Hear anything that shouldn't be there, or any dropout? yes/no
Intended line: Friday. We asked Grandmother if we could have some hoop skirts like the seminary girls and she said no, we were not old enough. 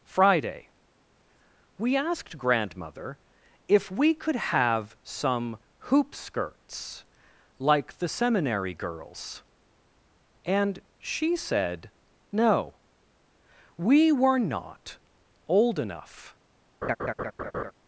yes